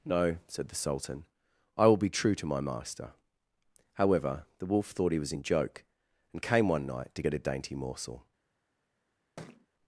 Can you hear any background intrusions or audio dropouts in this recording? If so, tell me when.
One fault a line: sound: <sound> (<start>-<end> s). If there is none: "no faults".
sound: thud (9.4-9.7 s)